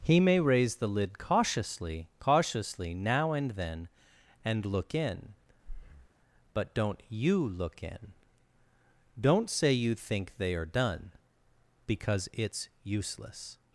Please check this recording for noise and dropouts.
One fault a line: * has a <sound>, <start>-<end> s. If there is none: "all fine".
* has a breath, 5.6-6.1 s